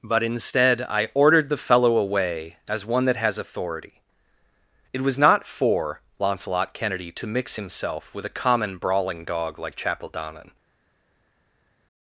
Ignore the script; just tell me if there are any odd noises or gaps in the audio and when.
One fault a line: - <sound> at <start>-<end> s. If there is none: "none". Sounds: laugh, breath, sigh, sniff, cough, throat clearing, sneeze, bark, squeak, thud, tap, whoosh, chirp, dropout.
none